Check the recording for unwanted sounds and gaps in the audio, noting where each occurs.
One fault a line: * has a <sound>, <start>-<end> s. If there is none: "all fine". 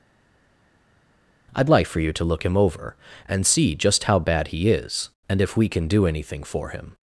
all fine